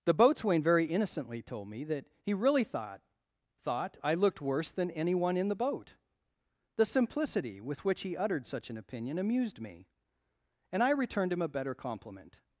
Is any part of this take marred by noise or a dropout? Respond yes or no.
no